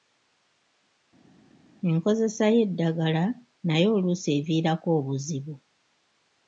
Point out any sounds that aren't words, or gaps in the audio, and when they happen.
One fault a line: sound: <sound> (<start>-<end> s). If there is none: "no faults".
no faults